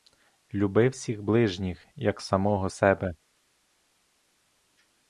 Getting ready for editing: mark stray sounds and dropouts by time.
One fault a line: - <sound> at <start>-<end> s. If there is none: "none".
none